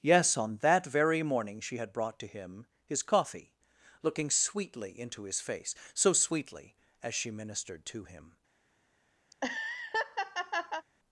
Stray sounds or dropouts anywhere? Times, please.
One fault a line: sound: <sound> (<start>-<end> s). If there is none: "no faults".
sound: laugh (9.3-10.9 s)